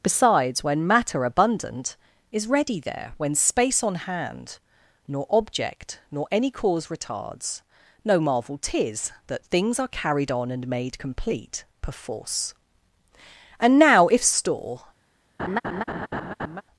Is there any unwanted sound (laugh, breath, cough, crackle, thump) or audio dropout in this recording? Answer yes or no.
yes